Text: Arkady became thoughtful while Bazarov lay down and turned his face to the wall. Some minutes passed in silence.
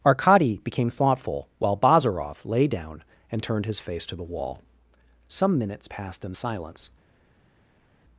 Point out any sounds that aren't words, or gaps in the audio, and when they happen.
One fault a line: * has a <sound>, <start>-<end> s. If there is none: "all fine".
all fine